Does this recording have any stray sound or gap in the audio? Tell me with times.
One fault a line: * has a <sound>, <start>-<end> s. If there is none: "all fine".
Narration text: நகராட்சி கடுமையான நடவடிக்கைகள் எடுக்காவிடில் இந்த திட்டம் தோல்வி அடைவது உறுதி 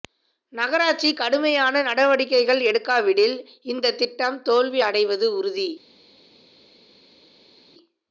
all fine